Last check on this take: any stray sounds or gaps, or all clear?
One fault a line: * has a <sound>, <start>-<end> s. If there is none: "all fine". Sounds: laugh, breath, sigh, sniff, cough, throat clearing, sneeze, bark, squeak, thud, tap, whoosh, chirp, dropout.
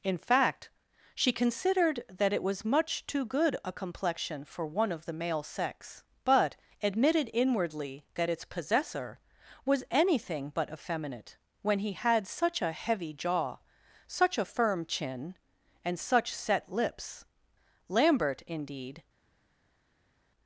all fine